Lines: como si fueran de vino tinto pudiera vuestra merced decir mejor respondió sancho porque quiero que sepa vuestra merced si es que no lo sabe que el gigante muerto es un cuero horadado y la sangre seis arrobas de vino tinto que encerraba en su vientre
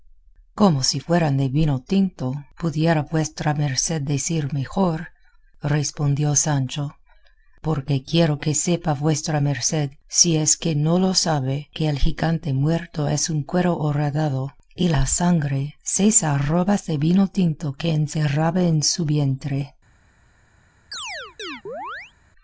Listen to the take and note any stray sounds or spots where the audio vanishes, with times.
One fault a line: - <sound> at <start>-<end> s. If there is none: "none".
- chirp at 20.9-22.1 s